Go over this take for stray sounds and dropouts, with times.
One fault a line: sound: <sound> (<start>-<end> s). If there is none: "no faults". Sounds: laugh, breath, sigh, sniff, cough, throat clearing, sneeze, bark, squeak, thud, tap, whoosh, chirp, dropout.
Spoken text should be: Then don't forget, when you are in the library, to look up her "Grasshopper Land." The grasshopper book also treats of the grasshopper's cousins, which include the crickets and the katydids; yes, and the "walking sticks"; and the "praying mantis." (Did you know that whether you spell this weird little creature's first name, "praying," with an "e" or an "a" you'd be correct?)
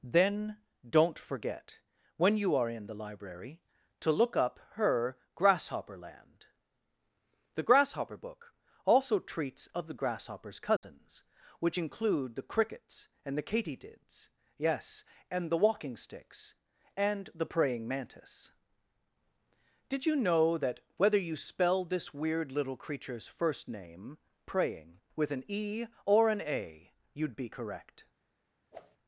sound: dropout (10.8-10.8 s)
sound: whoosh (28.7-29.0 s)